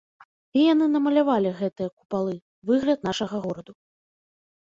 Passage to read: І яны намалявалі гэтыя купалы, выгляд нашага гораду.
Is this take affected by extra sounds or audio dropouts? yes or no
no